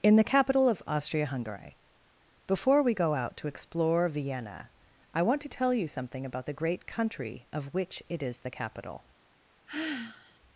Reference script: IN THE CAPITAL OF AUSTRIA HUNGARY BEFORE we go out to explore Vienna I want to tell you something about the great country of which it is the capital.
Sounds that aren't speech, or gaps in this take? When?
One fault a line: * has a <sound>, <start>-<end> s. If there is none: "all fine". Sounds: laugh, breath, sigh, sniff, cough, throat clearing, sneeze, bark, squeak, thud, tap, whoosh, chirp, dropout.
* has a sigh, 9.7-10.4 s